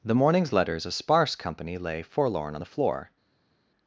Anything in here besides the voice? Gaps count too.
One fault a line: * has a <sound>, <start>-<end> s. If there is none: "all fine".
all fine